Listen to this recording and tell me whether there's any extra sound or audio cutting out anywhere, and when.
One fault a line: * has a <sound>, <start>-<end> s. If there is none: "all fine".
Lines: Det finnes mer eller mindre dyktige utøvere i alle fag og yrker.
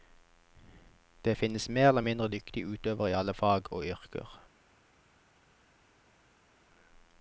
all fine